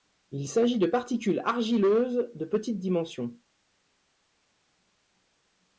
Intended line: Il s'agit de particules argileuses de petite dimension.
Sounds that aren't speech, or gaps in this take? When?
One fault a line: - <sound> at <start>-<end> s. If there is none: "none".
none